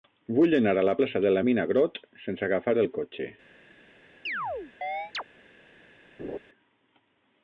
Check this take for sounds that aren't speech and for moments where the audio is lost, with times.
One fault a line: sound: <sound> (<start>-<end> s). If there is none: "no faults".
sound: chirp (4.3-5.2 s)
sound: laugh (6.2-6.4 s)